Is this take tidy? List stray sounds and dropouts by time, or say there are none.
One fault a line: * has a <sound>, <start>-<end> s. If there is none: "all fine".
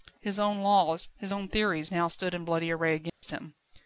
* has a dropout, 3.1-3.2 s